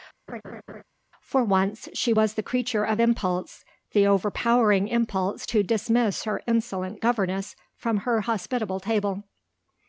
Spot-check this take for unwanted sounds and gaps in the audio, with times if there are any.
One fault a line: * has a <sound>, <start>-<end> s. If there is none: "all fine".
* has a laugh, 0.3-0.8 s